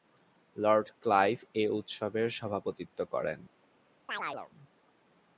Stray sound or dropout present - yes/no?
yes